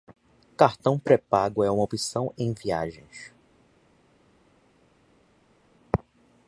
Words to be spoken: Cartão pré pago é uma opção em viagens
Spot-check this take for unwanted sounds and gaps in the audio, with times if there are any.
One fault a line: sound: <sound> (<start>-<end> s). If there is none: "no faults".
no faults